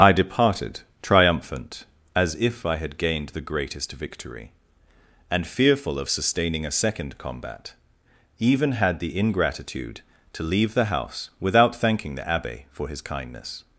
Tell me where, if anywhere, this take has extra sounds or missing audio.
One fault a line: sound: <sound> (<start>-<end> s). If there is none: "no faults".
no faults